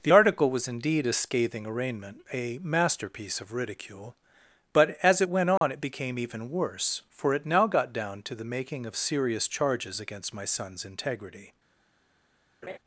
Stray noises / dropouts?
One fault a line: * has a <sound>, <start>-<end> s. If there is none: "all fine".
* has a dropout, 5.6-5.6 s
* has a laugh, 12.6-12.8 s